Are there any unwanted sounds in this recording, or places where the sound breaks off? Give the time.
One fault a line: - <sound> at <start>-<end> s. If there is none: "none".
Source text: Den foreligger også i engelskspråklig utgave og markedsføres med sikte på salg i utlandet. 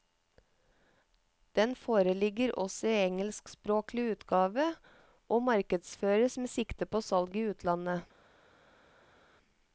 none